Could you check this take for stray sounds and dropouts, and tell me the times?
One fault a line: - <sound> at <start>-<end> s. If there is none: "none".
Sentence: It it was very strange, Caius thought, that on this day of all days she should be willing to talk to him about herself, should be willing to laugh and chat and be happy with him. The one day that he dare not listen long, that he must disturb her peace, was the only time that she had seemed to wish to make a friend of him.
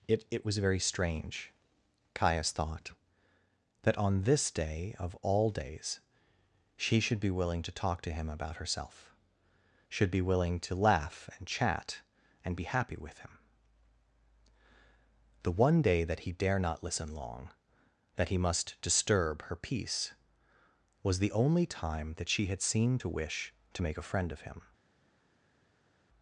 none